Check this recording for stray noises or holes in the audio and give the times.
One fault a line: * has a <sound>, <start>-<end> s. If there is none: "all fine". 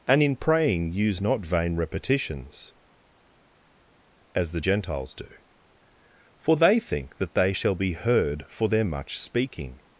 all fine